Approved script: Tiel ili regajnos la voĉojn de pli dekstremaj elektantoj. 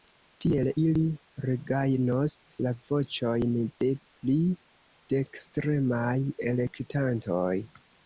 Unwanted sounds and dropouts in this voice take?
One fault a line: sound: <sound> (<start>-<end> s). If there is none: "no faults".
no faults